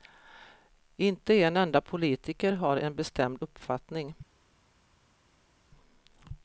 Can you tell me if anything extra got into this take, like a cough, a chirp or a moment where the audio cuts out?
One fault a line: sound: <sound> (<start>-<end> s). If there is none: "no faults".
no faults